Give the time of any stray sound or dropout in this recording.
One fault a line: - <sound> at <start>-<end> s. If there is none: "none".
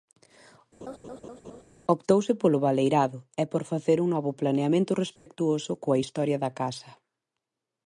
- laugh at 0.8-1.6 s
- dropout at 5.2-5.3 s